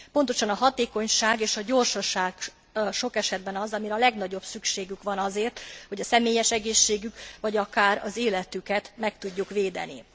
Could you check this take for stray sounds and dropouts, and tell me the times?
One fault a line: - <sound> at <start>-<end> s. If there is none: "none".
none